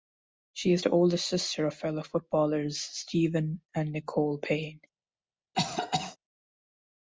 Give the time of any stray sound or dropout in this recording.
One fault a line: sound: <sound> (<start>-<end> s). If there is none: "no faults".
sound: cough (5.5-6.2 s)